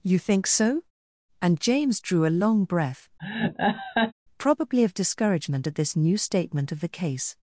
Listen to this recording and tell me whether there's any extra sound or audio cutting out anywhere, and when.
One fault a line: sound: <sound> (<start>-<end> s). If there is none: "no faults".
sound: laugh (3.2-4.1 s)